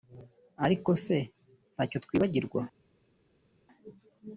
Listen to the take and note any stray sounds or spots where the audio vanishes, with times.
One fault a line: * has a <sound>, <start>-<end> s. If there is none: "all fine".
all fine